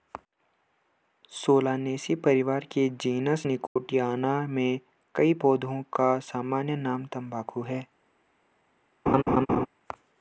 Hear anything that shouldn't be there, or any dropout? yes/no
yes